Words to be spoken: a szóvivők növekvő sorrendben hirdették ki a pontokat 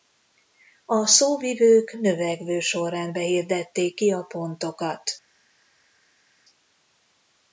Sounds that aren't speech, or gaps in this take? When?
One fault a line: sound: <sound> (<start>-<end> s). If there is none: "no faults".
no faults